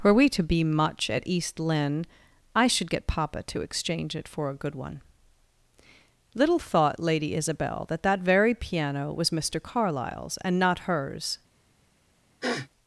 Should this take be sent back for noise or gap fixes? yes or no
yes